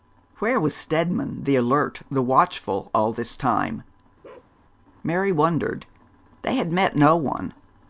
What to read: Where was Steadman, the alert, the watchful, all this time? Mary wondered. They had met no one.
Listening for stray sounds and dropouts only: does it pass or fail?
fail